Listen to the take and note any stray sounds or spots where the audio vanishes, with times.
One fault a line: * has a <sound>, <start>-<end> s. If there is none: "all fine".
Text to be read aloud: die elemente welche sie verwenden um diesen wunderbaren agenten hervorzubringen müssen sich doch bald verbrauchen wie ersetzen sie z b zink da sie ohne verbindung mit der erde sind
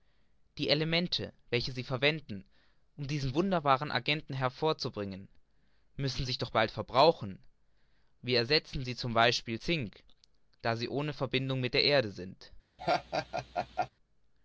* has a laugh, 12.8-13.9 s